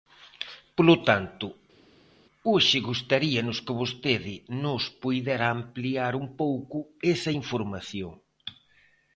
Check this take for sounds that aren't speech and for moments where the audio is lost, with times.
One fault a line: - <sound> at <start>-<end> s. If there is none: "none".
none